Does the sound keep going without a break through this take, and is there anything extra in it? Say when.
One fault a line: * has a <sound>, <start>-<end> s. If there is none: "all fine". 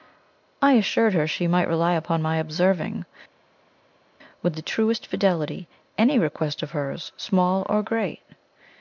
all fine